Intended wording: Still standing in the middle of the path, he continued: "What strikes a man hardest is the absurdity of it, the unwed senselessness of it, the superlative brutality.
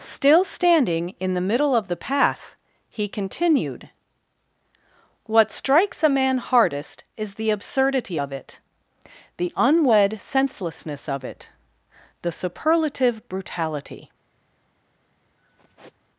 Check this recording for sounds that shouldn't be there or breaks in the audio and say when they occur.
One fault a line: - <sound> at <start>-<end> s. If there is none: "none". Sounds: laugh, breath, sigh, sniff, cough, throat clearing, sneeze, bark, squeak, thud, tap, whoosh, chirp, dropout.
- sigh at 15.4-16.0 s